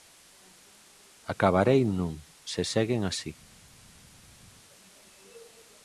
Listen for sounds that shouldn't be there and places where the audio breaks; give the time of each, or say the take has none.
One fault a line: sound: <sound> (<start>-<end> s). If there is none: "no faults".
no faults